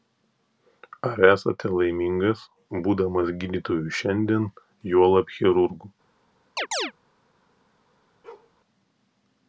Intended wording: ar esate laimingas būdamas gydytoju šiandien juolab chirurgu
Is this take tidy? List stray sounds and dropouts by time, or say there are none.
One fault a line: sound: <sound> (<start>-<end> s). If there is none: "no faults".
sound: chirp (6.6-6.9 s)
sound: bark (8.2-8.5 s)